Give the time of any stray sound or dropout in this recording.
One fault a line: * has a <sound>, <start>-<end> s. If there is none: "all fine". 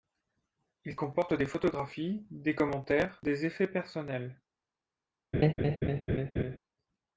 * has a laugh, 5.3-6.6 s